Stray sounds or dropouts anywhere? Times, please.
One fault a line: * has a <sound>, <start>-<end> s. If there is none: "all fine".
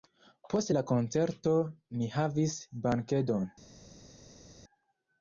all fine